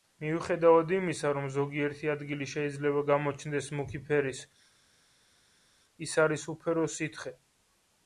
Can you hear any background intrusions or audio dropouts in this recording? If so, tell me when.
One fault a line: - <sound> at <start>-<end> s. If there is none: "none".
none